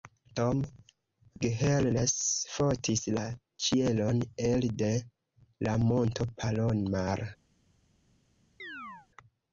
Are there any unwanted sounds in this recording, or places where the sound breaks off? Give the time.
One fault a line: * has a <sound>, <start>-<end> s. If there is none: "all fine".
* has a chirp, 8.6-9.1 s